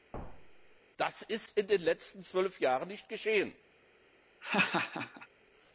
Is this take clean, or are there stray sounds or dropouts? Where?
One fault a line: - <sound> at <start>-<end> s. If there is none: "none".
- thud at 0.1-0.8 s
- laugh at 4.4-5.3 s